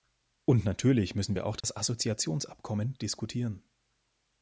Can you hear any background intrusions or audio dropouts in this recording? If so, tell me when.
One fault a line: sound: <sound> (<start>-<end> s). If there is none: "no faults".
sound: dropout (1.6-1.6 s)